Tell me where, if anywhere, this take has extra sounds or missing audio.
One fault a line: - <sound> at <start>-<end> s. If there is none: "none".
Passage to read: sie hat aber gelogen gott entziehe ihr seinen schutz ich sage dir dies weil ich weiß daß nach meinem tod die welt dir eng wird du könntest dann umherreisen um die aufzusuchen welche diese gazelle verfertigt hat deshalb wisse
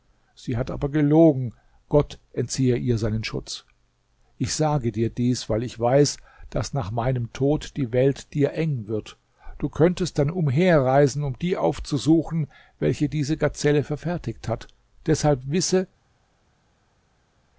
none